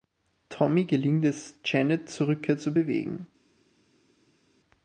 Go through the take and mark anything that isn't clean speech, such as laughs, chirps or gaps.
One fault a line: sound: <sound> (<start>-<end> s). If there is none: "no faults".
no faults